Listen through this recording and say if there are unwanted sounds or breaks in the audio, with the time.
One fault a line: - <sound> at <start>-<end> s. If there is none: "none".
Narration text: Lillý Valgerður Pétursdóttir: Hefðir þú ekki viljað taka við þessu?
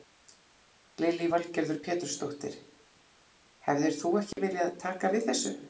- dropout at 4.3-4.4 s